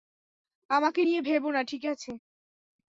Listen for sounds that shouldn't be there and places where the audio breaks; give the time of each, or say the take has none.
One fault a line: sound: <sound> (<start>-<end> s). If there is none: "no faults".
no faults